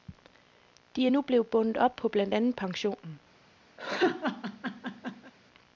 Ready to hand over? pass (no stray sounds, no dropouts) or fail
fail